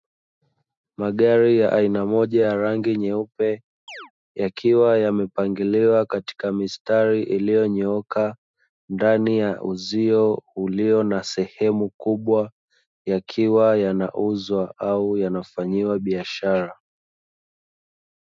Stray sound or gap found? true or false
true